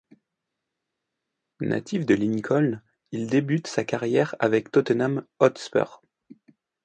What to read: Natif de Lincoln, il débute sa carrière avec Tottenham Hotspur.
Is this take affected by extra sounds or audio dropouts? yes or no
no